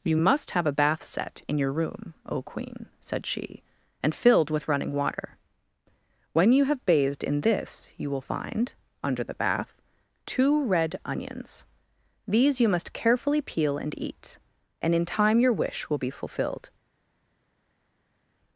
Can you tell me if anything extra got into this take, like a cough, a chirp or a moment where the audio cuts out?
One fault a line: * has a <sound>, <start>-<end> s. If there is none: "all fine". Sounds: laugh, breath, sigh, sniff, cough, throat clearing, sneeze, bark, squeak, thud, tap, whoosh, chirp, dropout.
all fine